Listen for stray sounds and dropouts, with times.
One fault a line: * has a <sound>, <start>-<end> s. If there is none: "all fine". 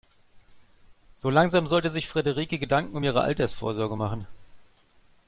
all fine